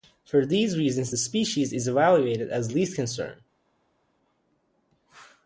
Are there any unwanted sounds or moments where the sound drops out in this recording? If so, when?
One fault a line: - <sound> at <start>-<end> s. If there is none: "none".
none